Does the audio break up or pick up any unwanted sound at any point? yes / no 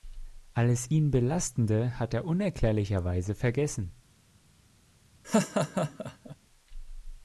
yes